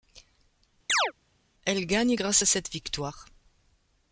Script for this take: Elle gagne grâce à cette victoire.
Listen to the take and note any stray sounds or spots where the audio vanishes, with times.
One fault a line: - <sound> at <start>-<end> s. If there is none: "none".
- chirp at 0.9-1.1 s